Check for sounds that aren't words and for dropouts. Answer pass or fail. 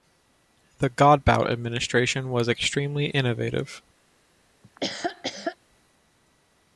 fail